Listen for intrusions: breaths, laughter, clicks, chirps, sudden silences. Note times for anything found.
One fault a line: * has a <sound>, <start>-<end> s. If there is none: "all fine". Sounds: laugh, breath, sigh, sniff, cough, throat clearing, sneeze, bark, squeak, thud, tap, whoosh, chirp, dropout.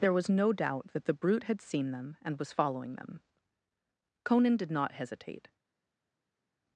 all fine